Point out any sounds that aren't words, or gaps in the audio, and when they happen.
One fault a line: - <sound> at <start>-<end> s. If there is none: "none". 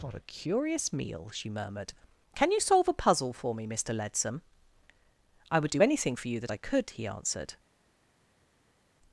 none